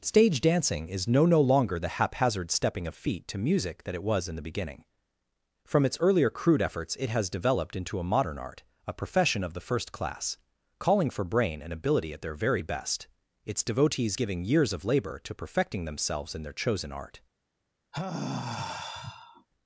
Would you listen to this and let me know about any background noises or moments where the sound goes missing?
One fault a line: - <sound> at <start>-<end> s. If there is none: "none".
- sigh at 17.9-19.5 s